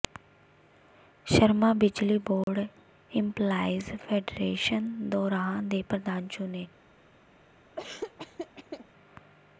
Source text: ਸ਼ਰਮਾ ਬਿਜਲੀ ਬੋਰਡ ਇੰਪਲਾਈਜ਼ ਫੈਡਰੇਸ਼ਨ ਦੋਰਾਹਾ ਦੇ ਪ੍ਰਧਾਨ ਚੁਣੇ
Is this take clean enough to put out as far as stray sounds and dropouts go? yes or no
no